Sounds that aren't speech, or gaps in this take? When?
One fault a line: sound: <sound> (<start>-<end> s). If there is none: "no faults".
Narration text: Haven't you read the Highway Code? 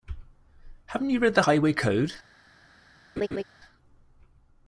sound: laugh (3.2-3.4 s)